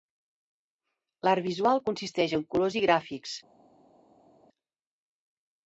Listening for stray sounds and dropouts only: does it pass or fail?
pass